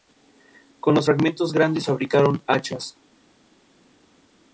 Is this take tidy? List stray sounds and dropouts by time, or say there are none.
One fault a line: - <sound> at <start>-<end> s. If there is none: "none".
none